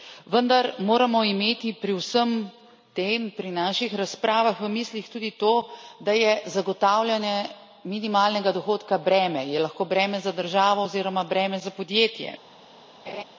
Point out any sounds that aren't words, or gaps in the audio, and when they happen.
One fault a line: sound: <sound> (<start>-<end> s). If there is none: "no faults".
sound: laugh (13.1-13.2 s)